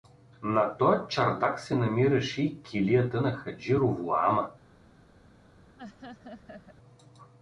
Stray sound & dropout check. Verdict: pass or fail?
fail